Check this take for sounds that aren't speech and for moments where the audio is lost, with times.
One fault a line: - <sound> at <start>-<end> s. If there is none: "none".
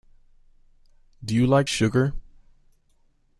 none